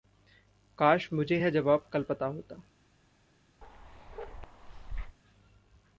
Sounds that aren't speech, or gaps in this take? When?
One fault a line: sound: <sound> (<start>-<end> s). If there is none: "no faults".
sound: bark (3.6-5.2 s)